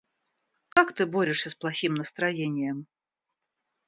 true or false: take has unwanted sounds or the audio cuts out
true